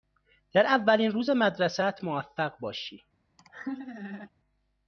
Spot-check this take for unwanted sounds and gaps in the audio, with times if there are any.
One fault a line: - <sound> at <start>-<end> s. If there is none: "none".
- laugh at 3.4-4.3 s